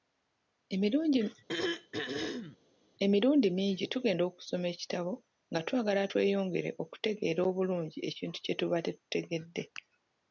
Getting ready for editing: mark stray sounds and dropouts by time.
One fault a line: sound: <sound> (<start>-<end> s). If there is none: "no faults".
sound: throat clearing (1.5-2.6 s)